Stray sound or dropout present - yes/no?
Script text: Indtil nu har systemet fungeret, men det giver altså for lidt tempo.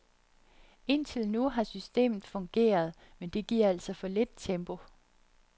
no